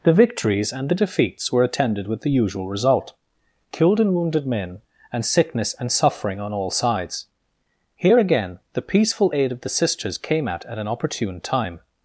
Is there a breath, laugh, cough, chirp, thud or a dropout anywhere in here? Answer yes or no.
no